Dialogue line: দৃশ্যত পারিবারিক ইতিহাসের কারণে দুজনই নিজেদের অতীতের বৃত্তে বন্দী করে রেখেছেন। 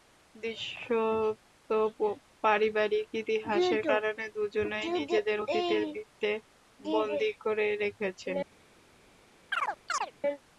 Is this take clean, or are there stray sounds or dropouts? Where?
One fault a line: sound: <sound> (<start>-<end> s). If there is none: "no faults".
sound: chirp (9.5-10.1 s)